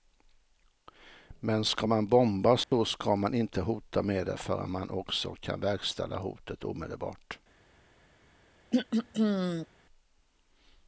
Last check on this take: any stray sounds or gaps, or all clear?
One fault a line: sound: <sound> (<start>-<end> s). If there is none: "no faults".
sound: dropout (2.6-2.7 s)
sound: throat clearing (8.7-9.7 s)